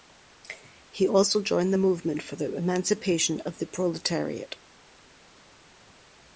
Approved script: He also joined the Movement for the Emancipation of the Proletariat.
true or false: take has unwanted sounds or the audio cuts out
false